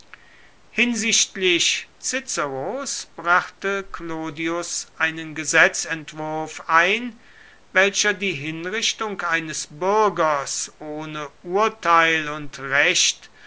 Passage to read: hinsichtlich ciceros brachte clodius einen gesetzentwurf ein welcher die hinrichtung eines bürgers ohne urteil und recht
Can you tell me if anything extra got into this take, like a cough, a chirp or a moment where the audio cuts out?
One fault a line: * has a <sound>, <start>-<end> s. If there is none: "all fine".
all fine